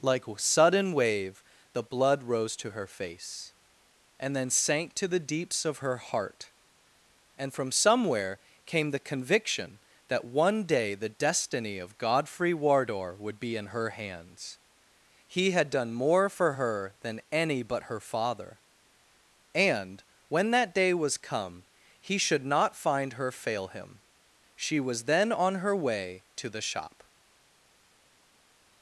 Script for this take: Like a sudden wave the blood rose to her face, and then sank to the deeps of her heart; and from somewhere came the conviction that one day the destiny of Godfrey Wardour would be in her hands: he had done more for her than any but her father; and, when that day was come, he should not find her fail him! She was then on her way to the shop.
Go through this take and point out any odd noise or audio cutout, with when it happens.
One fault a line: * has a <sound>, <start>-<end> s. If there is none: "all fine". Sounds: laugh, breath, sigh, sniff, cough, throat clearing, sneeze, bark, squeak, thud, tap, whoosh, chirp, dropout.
all fine